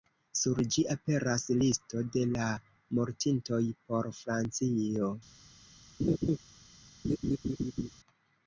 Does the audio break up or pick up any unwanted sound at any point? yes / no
yes